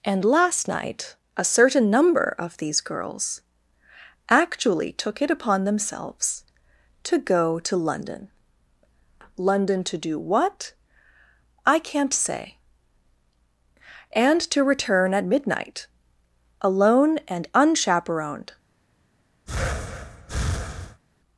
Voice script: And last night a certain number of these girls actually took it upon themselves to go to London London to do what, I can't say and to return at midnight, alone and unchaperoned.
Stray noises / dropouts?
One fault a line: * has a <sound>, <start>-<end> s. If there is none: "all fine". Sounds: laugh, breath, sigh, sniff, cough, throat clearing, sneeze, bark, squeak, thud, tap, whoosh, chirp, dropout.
* has a breath, 19.5-21.0 s